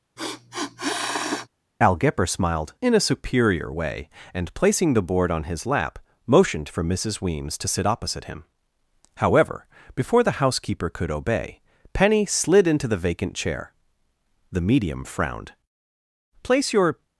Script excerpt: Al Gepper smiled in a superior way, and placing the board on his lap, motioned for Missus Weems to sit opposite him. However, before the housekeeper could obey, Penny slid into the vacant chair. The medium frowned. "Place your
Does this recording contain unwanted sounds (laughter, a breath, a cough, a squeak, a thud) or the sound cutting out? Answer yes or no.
yes